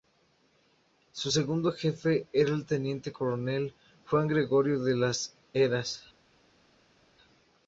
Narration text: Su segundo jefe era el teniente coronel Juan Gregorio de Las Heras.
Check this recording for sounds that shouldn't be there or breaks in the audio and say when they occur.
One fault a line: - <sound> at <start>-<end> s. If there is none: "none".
none